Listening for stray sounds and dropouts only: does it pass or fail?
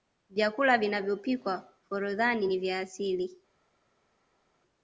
pass